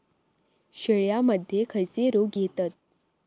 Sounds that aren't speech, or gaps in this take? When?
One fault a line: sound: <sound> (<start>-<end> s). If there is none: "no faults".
no faults